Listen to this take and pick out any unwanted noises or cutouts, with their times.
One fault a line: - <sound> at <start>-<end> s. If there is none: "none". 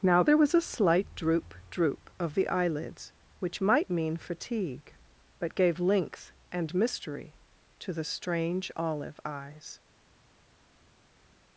none